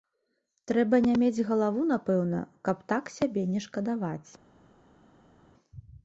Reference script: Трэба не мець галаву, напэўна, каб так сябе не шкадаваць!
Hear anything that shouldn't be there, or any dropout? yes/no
no